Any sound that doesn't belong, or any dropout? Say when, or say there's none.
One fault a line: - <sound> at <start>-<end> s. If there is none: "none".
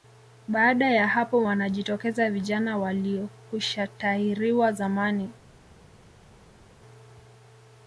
none